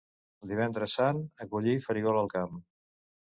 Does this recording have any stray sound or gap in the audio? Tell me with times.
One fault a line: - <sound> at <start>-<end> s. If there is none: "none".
none